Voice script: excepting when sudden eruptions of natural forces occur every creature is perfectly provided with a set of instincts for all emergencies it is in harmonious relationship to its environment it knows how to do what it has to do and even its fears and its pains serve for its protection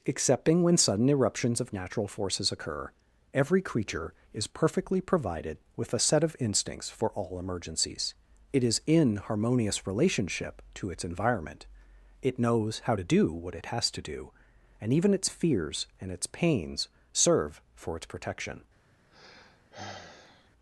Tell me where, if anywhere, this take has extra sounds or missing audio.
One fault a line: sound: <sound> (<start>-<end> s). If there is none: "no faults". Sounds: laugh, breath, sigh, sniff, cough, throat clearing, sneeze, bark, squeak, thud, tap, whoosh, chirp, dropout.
sound: sigh (19.1-20.5 s)